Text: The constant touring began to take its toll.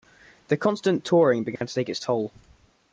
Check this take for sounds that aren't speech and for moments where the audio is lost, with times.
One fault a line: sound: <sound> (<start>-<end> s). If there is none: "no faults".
sound: dropout (1.6-1.6 s)